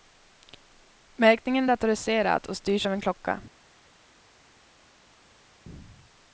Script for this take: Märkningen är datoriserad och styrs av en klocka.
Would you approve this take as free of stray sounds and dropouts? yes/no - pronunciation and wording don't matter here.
yes